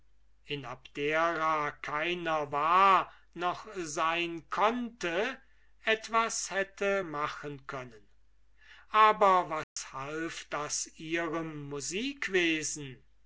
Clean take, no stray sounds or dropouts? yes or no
no